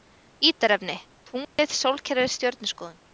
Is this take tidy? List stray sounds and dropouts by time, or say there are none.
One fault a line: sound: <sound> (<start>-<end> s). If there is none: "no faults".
sound: dropout (1.4-1.6 s)